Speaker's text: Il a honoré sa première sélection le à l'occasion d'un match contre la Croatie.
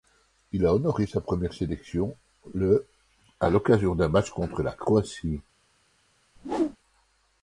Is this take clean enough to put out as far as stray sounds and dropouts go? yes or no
no